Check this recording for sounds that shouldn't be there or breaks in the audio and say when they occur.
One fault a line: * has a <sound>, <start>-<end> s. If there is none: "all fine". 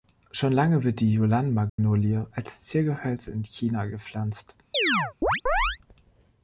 * has a dropout, 1.7-1.8 s
* has a chirp, 4.7-5.8 s